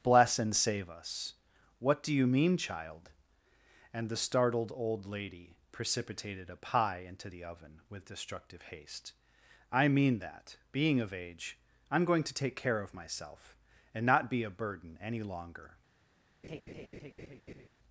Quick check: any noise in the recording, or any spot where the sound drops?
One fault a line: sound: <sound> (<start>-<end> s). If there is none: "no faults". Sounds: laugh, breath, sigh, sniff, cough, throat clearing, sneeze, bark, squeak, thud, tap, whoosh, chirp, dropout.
sound: laugh (16.4-17.7 s)